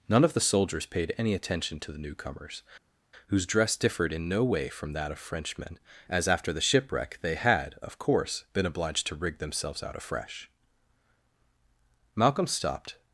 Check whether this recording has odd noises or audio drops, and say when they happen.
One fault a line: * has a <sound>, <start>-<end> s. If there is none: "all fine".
all fine